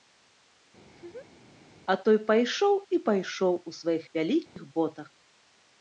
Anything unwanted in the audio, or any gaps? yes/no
yes